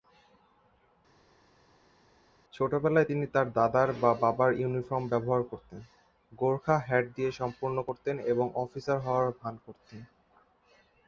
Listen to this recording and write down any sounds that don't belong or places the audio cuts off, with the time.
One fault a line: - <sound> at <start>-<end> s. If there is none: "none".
none